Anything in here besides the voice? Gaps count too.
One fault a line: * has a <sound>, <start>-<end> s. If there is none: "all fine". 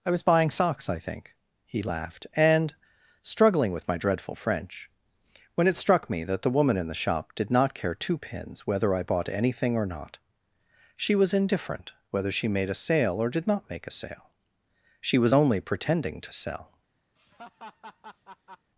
* has a laugh, 17.2-18.7 s